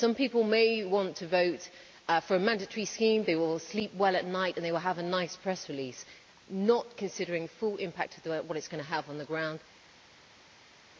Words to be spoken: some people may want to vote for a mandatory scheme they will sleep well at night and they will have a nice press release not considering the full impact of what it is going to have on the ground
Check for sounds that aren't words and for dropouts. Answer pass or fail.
pass